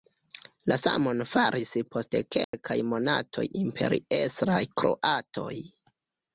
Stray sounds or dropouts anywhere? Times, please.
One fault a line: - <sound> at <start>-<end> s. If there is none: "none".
- dropout at 2.4-2.5 s